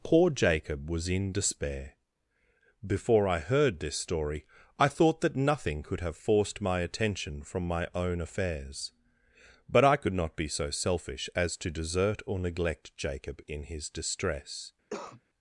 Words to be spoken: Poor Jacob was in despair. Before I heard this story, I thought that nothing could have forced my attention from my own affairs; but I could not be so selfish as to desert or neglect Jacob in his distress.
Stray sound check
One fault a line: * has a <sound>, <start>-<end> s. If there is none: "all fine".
* has a cough, 14.9-15.2 s